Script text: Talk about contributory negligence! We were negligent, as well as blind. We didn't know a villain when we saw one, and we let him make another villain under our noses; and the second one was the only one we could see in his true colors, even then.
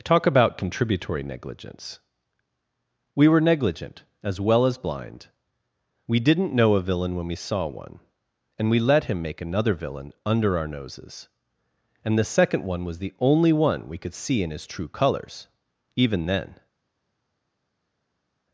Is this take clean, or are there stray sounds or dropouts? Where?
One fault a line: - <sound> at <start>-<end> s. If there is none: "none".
none